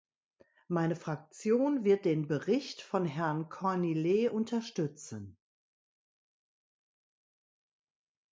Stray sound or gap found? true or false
false